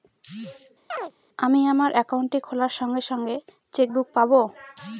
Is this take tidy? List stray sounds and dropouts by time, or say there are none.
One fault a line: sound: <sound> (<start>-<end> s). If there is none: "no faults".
sound: chirp (0.9-1.1 s)